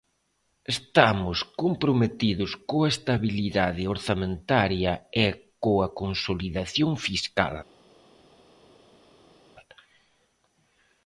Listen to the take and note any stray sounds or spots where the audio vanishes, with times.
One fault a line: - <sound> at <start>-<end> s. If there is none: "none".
none